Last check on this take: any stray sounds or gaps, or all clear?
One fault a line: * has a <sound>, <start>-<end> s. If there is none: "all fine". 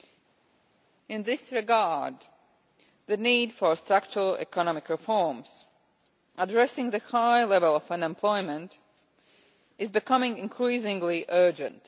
all fine